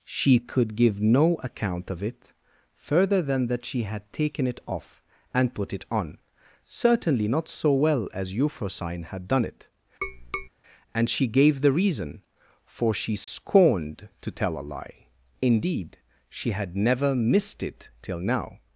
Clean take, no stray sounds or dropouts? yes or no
no